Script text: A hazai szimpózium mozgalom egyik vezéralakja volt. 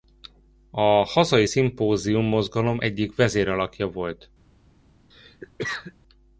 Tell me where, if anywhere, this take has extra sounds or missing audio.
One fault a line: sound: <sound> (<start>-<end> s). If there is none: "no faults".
sound: cough (5.1-5.9 s)